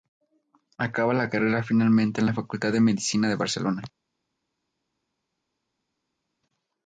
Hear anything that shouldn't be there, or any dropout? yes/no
no